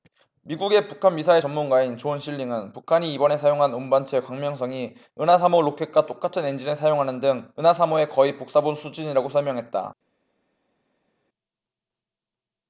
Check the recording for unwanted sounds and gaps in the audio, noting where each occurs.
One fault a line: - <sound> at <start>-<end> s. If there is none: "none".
none